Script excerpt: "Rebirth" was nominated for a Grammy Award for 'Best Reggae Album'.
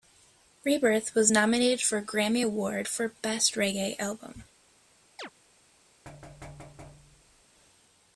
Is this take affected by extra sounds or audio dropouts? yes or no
yes